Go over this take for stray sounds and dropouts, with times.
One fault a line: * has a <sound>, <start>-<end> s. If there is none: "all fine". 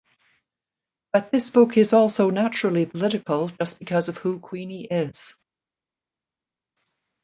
all fine